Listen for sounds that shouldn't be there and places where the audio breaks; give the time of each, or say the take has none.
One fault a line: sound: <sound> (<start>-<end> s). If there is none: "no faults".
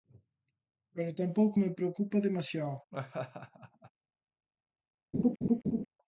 sound: laugh (2.9-3.9 s)
sound: laugh (5.1-5.9 s)